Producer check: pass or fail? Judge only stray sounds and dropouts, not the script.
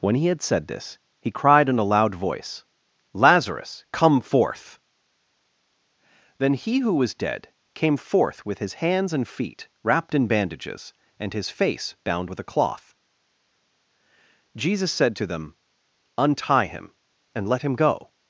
pass